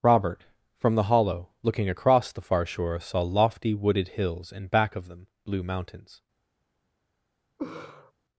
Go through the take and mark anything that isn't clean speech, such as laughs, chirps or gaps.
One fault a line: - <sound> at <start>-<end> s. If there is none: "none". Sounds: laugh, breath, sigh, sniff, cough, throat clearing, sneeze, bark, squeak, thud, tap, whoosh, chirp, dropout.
- laugh at 7.6-8.1 s